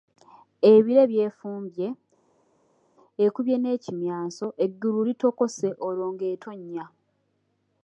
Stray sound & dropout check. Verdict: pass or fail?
pass